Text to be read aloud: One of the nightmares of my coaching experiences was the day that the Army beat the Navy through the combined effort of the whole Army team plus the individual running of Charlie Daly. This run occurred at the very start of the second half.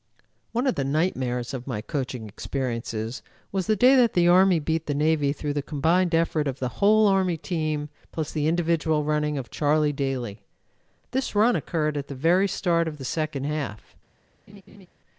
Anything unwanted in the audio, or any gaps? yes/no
yes